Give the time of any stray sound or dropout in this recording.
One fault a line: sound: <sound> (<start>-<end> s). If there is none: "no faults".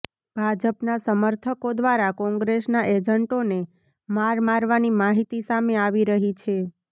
no faults